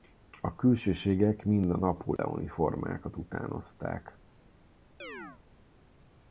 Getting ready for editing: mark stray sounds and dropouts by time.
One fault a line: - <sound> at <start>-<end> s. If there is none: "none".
- dropout at 2.2-2.2 s
- chirp at 5.0-5.4 s